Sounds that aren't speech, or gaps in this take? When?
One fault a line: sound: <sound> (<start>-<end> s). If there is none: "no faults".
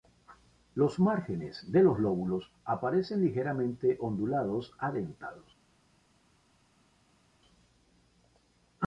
no faults